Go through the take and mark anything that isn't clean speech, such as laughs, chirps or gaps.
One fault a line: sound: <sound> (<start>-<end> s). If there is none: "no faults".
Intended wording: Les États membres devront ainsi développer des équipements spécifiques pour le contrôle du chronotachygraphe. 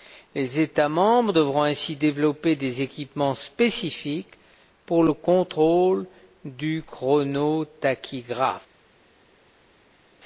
no faults